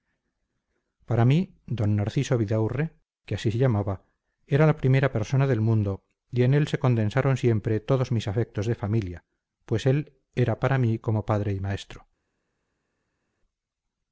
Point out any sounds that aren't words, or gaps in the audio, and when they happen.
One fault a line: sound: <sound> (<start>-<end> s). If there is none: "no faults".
no faults